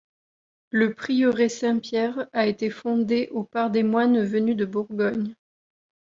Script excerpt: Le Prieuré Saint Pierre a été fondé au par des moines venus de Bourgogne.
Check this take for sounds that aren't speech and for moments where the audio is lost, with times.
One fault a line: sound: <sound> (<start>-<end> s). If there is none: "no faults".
no faults